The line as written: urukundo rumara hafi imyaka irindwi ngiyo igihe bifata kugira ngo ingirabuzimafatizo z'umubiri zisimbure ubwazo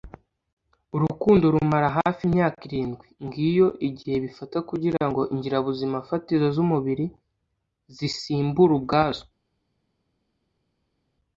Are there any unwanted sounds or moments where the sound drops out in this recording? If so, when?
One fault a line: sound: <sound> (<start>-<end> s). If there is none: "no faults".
no faults